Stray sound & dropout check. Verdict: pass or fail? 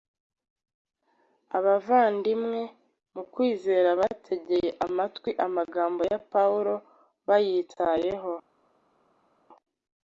pass